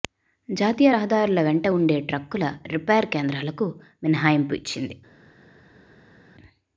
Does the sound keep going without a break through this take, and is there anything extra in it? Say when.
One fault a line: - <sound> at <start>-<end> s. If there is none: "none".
none